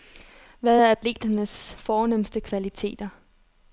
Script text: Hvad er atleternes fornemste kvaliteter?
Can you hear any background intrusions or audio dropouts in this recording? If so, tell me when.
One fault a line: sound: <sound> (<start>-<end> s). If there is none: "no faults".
no faults